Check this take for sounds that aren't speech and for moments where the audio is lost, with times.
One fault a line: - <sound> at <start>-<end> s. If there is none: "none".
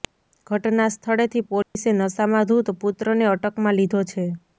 - dropout at 1.6-1.8 s